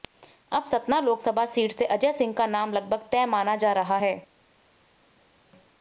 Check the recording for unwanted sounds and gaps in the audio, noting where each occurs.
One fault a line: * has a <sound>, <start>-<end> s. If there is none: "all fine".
all fine